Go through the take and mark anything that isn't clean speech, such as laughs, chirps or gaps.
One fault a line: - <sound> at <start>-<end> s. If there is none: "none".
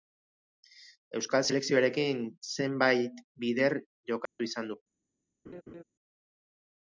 - dropout at 4.3-4.4 s
- laugh at 5.4-5.8 s